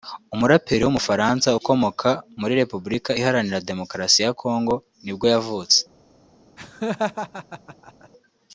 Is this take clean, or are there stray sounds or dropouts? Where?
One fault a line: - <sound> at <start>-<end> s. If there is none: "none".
- laugh at 6.6-8.1 s